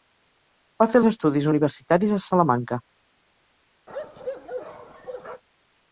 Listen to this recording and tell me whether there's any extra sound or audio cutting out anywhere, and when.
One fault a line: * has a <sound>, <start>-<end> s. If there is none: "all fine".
* has a bark, 3.9-5.4 s